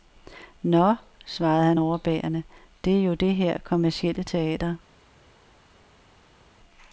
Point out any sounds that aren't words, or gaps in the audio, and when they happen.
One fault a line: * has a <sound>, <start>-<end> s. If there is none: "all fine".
all fine